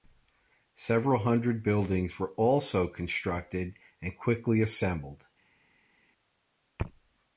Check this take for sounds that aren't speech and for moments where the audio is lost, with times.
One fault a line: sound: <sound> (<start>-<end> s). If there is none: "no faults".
no faults